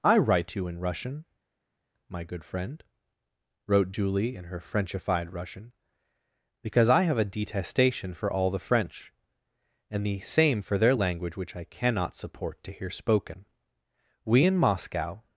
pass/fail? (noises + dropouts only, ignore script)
pass